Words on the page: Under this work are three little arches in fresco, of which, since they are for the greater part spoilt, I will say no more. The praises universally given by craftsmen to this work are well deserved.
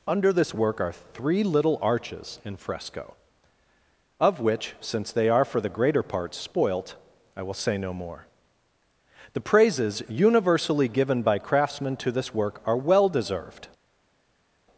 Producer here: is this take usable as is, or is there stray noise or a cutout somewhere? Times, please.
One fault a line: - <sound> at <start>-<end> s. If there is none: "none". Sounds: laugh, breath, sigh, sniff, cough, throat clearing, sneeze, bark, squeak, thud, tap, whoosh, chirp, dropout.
none